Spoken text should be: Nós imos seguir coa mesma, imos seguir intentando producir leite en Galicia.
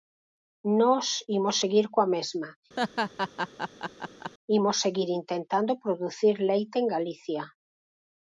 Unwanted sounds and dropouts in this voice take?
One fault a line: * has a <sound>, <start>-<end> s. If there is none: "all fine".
* has a laugh, 2.8-4.3 s